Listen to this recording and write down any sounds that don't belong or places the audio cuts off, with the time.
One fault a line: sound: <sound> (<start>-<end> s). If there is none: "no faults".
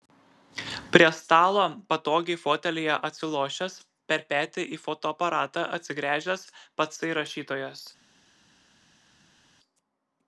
no faults